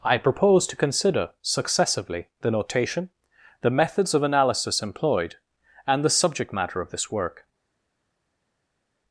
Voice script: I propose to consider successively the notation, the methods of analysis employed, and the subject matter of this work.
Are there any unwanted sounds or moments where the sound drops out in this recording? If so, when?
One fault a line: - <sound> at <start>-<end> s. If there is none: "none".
none